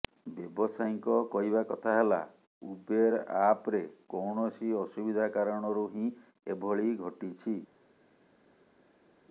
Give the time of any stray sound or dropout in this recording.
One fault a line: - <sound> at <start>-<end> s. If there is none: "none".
none